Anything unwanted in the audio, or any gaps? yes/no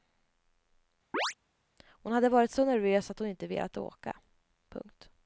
yes